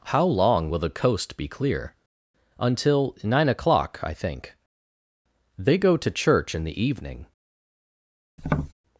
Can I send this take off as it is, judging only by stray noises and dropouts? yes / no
no